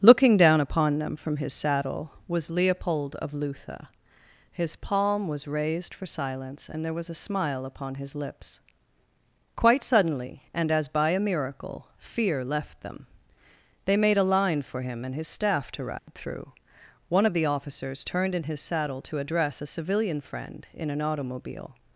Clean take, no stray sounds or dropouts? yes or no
no